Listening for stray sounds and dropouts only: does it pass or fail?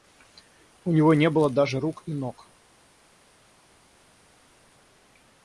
pass